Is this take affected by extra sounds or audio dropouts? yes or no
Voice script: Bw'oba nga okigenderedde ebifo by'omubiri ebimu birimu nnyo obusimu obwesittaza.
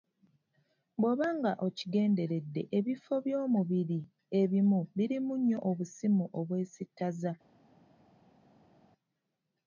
no